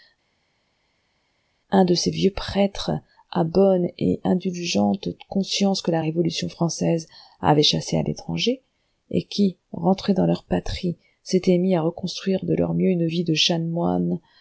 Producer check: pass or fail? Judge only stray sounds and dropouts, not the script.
pass